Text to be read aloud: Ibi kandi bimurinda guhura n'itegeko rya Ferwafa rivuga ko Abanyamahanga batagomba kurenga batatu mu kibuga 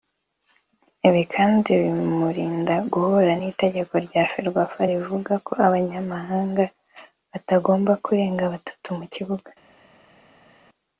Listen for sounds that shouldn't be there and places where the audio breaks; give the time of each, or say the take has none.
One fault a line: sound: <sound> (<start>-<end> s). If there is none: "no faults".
no faults